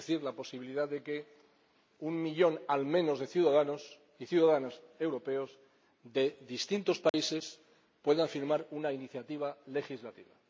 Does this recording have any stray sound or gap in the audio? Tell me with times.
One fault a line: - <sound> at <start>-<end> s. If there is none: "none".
- dropout at 7.1-7.1 s